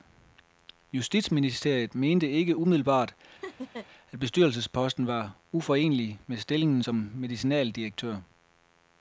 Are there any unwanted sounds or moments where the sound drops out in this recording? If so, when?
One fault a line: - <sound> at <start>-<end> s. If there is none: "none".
- laugh at 3.4-3.9 s